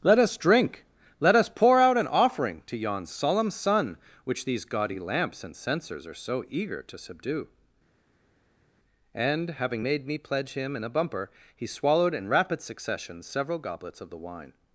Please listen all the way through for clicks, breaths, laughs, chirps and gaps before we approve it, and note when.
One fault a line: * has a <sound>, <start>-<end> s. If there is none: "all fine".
all fine